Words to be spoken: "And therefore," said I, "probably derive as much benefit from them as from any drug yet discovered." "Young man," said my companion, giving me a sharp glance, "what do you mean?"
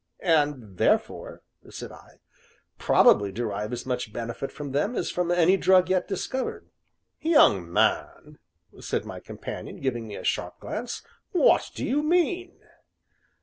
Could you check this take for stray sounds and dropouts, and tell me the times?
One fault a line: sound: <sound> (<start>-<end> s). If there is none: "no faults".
no faults